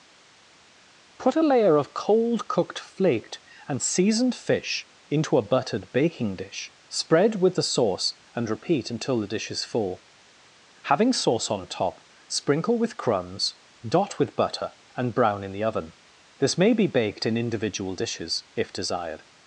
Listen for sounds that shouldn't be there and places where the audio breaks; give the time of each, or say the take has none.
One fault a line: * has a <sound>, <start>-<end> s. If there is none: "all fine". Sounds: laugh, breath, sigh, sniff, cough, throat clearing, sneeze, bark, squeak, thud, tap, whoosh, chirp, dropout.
all fine